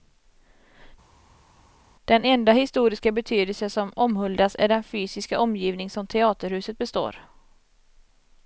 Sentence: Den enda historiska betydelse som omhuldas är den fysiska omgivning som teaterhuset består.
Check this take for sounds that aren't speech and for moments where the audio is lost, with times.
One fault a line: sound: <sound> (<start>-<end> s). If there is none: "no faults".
no faults